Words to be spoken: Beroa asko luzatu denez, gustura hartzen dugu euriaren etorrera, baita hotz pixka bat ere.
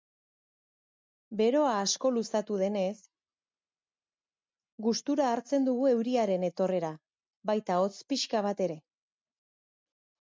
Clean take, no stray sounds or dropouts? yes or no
yes